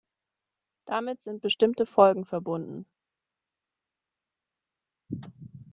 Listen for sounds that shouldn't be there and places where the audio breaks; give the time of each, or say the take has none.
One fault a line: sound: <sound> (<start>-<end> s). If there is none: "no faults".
no faults